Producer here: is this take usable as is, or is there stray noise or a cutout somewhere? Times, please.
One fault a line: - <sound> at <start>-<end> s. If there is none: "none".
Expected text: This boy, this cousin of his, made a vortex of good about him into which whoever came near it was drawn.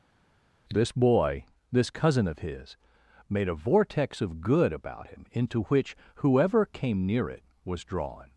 none